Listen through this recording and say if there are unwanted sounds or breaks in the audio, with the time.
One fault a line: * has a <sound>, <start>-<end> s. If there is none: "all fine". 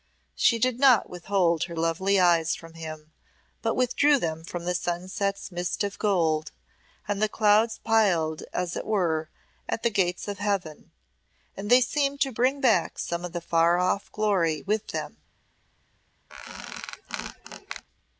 * has a squeak, 16.3-17.8 s